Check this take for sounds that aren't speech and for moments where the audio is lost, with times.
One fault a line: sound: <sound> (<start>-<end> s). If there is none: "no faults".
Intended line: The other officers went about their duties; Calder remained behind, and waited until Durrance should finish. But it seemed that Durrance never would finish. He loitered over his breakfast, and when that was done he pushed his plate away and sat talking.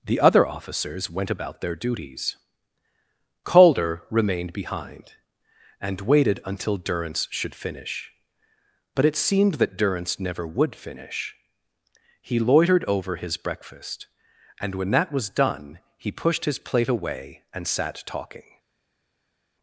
no faults